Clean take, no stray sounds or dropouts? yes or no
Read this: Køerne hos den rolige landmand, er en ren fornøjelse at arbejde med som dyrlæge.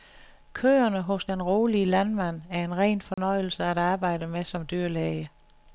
no